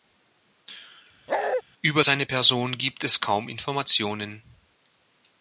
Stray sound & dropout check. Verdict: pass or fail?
fail